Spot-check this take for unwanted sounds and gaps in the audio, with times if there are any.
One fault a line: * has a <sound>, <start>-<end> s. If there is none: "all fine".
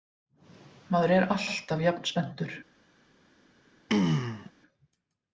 * has a throat clearing, 3.9-4.5 s